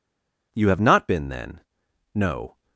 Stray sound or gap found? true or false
false